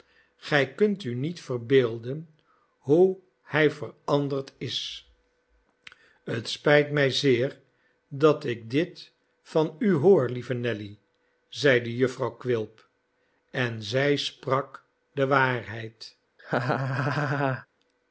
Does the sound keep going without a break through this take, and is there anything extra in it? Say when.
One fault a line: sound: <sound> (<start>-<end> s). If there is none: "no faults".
sound: laugh (16.4-17.7 s)